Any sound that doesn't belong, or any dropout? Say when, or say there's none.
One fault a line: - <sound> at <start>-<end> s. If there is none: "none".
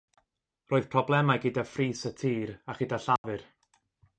- dropout at 3.2-3.2 s